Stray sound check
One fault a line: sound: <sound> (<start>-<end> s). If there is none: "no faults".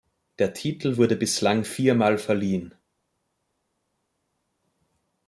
no faults